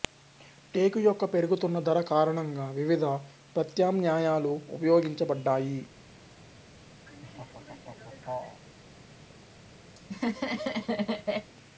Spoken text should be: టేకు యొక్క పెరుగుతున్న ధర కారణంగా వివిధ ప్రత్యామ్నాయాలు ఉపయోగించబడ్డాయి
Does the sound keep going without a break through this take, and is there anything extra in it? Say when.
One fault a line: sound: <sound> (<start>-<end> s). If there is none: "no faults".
sound: laugh (7.1-8.6 s)
sound: laugh (10.0-11.5 s)